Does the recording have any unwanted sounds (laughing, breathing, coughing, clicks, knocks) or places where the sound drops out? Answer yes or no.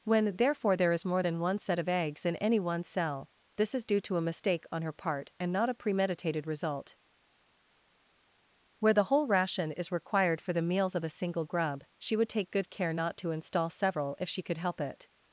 no